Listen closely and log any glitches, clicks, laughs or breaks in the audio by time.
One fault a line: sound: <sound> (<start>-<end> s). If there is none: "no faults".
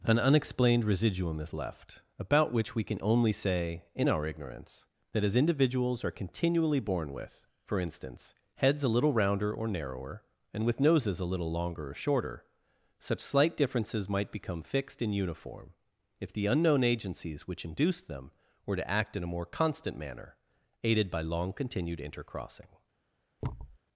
sound: thud (23.4-23.8 s)